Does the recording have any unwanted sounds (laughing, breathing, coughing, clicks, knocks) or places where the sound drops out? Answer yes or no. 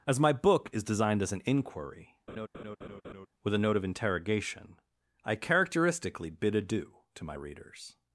yes